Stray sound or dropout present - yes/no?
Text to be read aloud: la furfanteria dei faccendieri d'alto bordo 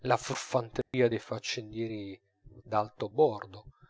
yes